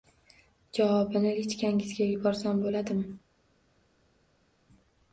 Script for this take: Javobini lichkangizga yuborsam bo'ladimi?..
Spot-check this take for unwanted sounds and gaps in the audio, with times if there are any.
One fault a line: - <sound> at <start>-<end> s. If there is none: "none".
none